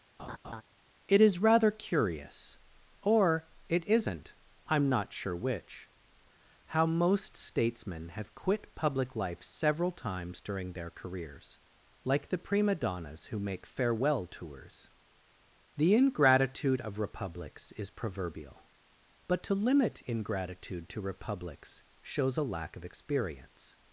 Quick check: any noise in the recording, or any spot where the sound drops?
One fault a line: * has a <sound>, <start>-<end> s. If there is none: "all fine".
* has a laugh, 0.2-0.6 s